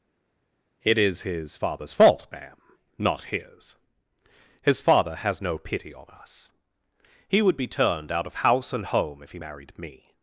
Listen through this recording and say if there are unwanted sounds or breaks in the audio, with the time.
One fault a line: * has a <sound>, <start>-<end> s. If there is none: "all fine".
all fine